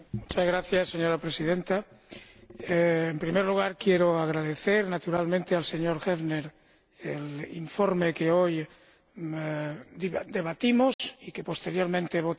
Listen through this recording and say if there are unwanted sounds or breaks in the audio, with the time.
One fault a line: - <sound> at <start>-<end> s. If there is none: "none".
- dropout at 10.9-11.0 s